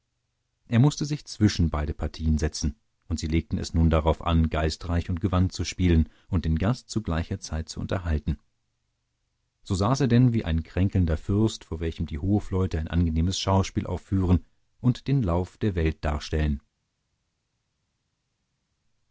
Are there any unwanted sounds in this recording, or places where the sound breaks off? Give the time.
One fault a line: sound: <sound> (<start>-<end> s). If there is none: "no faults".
no faults